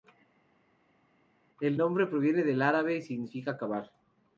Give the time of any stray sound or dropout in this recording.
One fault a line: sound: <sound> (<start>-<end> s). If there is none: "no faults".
no faults